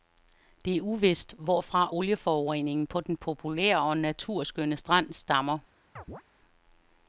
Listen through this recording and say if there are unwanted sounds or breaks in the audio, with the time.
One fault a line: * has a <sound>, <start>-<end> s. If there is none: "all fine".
* has a chirp, 6.0-6.2 s